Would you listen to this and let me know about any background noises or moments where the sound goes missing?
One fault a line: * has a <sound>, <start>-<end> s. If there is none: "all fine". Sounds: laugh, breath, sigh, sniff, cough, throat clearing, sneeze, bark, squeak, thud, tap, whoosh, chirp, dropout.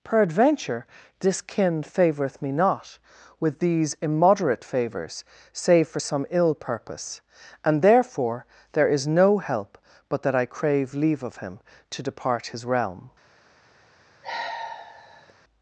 * has a sigh, 14.2-15.3 s